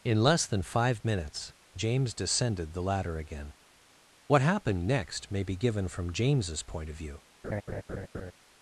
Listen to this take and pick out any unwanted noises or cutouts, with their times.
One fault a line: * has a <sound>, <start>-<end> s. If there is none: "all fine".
* has a laugh, 7.4-8.3 s